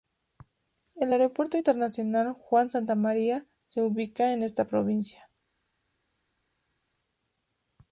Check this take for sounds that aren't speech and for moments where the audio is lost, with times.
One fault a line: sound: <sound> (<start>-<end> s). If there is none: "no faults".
no faults